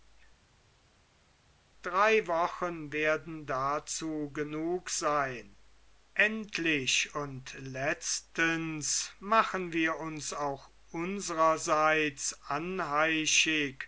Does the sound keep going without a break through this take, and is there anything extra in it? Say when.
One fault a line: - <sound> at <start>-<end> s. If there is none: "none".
none